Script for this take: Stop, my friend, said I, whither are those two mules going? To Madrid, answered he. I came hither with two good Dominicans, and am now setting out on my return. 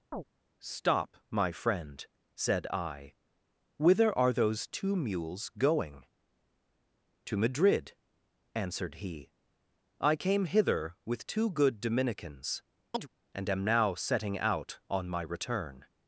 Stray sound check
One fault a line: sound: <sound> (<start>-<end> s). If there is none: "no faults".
sound: chirp (0.1-0.2 s)
sound: chirp (12.9-13.1 s)